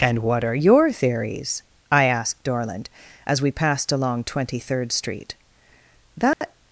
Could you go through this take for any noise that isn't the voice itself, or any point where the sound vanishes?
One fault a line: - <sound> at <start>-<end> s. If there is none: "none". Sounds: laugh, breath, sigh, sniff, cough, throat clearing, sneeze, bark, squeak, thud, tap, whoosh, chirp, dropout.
- dropout at 6.3-6.4 s